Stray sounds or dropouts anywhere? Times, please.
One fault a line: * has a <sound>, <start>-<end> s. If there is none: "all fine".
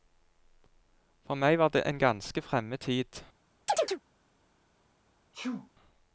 * has a chirp, 3.7-4.0 s
* has a sneeze, 5.3-5.7 s